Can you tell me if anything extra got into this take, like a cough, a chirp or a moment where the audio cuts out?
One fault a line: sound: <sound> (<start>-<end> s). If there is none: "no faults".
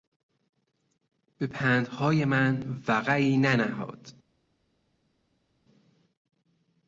no faults